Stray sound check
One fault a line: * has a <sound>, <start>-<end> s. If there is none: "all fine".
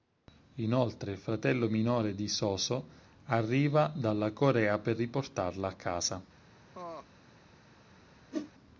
* has a laugh, 6.7-7.1 s
* has a whoosh, 8.3-8.5 s